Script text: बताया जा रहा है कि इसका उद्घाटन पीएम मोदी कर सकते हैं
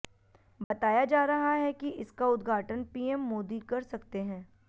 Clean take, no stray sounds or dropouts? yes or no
no